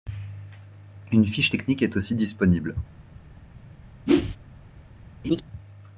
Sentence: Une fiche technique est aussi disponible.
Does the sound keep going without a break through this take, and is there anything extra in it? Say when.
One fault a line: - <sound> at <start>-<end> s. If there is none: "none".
- whoosh at 4.1-4.4 s
- laugh at 5.2-5.4 s